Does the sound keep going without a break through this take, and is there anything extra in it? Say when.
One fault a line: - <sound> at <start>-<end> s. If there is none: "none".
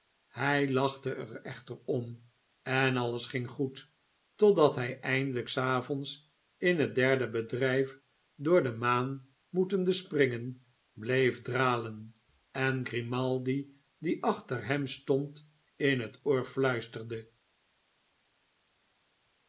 none